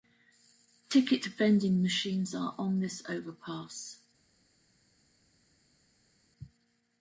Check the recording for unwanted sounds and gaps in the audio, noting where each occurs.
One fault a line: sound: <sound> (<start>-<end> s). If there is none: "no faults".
no faults